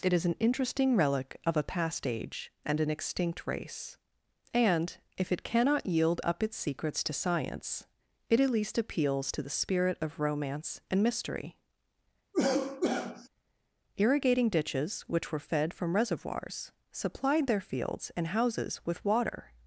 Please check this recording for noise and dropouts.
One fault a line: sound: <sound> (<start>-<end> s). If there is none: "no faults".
sound: cough (12.3-13.3 s)